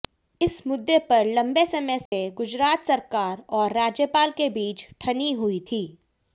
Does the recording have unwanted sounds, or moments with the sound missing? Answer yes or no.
yes